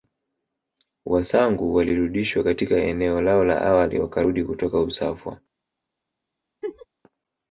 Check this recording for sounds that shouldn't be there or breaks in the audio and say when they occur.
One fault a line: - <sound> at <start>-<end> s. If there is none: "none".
- laugh at 6.6-6.9 s